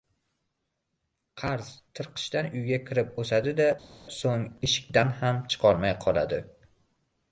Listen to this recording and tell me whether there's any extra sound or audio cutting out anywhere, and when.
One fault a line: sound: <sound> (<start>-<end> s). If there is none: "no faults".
no faults